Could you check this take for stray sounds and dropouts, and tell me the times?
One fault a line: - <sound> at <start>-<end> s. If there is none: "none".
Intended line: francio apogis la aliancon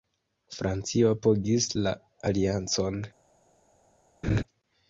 - laugh at 4.2-4.4 s